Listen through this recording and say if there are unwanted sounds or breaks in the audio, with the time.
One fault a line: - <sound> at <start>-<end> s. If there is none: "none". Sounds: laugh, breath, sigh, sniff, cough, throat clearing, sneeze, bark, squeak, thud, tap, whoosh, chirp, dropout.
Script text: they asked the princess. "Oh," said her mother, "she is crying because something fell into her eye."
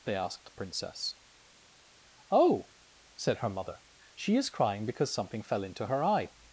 none